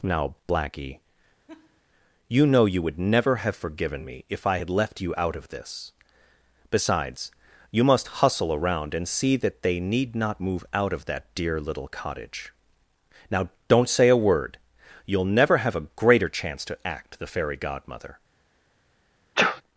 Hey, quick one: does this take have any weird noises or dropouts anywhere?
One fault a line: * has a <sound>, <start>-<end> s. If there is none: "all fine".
* has a laugh, 1.5-1.8 s
* has a sneeze, 19.4-19.6 s